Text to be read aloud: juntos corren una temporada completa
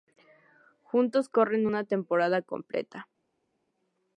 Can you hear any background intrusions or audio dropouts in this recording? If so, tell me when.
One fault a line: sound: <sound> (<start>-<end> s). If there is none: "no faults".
no faults